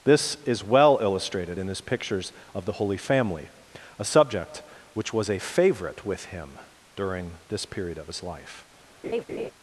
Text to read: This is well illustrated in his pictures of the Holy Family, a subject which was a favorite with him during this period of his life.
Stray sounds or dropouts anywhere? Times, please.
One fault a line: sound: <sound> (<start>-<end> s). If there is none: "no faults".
sound: laugh (9.0-9.5 s)